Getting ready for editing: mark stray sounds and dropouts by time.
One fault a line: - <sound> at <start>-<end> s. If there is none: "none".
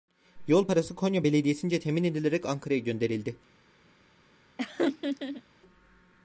- laugh at 4.6-5.4 s